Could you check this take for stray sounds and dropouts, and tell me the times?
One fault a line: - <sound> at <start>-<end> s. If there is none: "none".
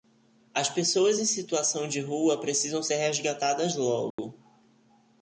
- dropout at 4.1-4.2 s